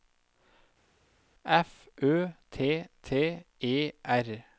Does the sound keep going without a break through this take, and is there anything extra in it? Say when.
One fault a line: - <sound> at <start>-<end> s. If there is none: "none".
none